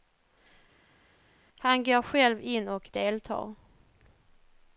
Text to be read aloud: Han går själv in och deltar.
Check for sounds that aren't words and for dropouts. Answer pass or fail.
pass